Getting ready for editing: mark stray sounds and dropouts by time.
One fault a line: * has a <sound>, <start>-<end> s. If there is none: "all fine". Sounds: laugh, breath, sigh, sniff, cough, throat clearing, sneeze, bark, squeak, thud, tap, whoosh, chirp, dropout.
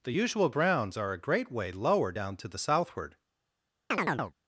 * has a chirp, 3.9-4.3 s